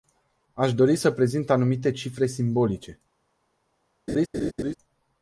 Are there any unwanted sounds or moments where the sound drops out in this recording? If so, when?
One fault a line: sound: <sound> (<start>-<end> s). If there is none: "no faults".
sound: laugh (4.1-4.7 s)